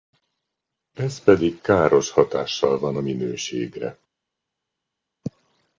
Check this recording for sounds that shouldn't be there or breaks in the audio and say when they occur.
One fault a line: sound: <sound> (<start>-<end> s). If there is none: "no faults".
no faults